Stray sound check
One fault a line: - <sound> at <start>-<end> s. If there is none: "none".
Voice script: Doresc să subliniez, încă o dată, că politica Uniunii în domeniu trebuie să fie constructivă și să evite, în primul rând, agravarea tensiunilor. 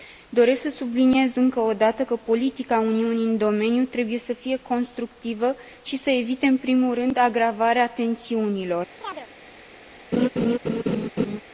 - chirp at 9.0-9.3 s
- laugh at 10.1-11.4 s